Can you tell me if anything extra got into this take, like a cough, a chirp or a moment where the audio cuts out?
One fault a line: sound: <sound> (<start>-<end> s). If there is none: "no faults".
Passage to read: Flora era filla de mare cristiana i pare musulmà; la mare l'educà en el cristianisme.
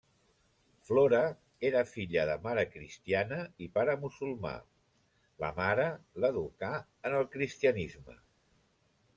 no faults